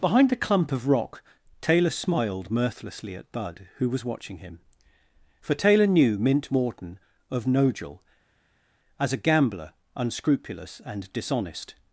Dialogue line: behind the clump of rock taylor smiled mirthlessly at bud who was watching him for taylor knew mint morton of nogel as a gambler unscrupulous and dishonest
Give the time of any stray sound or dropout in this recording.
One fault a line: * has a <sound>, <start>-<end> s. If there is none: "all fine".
all fine